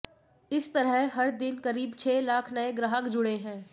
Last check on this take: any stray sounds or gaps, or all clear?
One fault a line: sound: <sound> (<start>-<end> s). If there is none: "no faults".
no faults